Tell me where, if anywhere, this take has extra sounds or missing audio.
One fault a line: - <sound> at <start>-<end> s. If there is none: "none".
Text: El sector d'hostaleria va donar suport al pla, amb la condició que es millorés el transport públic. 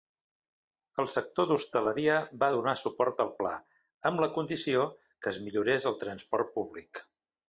none